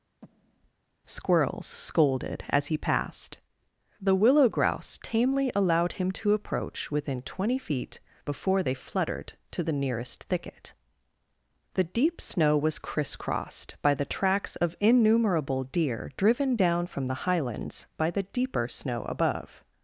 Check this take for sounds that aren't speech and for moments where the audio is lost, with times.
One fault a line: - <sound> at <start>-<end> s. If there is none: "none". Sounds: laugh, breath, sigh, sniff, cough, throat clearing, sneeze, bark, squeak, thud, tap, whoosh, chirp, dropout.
- breath at 0.2-0.7 s